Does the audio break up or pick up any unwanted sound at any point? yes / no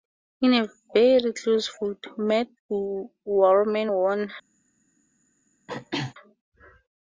yes